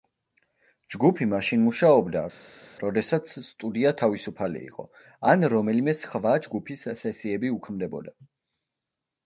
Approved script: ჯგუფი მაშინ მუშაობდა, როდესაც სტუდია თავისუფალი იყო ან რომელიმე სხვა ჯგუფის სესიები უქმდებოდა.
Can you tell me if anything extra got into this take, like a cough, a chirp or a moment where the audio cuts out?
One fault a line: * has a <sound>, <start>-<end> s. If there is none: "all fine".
all fine